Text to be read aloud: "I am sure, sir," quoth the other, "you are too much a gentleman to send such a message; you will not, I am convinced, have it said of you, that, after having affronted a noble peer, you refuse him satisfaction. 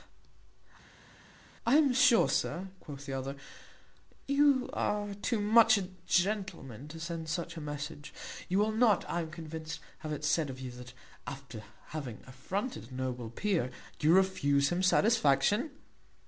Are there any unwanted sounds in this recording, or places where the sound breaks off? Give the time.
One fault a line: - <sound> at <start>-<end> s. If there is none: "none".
none